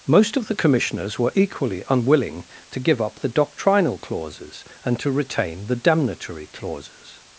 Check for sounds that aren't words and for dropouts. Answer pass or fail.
pass